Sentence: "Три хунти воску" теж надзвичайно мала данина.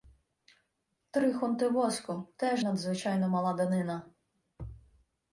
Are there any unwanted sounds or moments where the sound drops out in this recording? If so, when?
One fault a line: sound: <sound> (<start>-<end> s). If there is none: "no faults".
no faults